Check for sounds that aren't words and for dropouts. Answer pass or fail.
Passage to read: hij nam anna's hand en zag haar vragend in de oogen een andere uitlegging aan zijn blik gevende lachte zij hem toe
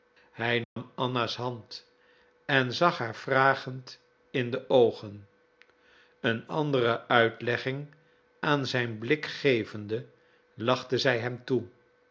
fail